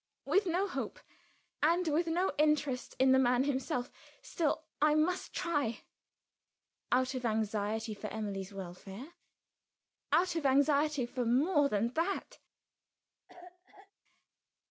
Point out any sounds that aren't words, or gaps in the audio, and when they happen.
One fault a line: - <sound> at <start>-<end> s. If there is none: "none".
- cough at 13.3-13.9 s